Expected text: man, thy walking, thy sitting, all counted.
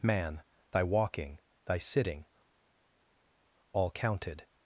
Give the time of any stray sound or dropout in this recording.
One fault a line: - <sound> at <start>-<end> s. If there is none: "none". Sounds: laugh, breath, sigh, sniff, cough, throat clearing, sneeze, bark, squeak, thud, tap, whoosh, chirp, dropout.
none